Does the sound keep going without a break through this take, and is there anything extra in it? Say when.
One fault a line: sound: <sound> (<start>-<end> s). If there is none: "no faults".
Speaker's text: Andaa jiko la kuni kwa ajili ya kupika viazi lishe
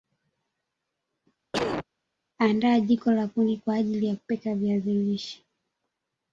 sound: cough (1.5-1.8 s)